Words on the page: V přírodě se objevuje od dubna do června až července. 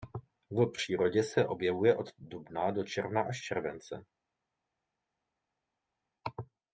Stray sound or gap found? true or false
false